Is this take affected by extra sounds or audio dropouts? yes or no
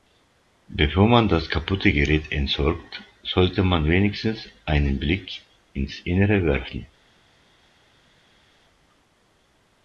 no